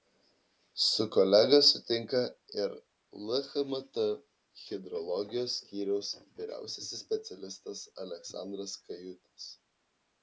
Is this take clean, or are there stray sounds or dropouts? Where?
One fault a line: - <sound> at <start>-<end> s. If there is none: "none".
none